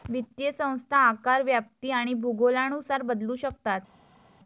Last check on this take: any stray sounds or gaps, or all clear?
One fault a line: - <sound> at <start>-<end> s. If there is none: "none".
none